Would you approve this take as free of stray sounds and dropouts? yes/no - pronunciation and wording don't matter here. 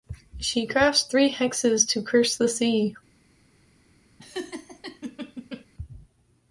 no